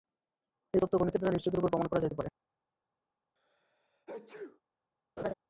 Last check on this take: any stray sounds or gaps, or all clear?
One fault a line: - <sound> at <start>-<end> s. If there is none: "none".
- sneeze at 3.4-4.6 s
- laugh at 5.2-5.3 s